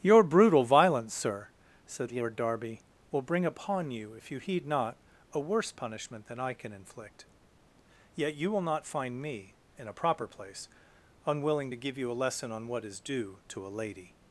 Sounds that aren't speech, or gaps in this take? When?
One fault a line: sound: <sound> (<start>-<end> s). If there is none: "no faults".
no faults